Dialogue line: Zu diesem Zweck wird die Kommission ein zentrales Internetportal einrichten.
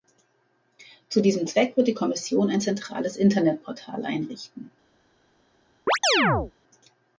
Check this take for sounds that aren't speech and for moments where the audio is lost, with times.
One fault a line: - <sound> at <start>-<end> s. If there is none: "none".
- chirp at 5.9-6.5 s